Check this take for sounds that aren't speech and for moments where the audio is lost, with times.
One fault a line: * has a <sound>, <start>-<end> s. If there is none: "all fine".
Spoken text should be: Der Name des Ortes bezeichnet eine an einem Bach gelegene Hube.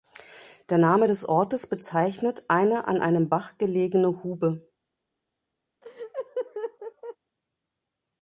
* has a laugh, 5.8-7.2 s